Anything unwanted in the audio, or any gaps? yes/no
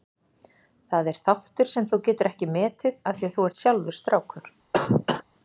yes